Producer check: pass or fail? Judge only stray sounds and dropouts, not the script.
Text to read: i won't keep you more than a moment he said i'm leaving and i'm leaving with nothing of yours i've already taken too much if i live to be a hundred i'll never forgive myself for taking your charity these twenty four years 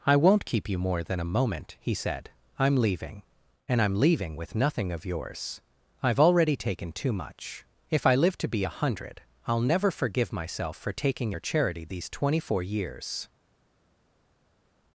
pass